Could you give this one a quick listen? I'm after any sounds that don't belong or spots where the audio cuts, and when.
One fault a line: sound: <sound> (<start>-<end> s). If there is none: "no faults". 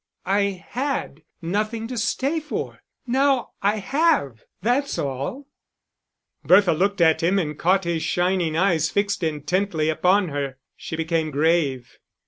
no faults